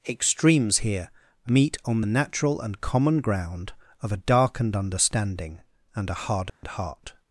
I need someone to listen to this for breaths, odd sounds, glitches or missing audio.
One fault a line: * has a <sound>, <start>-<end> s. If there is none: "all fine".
* has a dropout, 6.5-6.6 s